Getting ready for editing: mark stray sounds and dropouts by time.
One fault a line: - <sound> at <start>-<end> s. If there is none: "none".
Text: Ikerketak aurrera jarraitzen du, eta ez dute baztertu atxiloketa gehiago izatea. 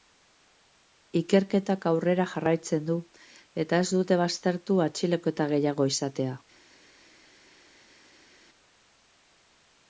none